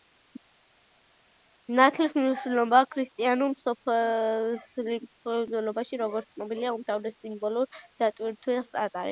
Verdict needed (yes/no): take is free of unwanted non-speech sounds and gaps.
yes